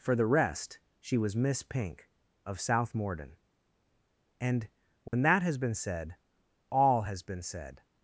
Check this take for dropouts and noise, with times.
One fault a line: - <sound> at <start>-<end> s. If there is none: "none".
- dropout at 5.1-5.1 s